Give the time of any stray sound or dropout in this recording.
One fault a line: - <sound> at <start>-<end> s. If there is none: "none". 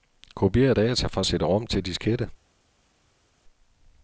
none